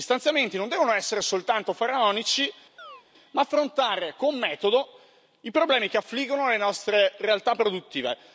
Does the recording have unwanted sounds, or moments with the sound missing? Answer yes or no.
yes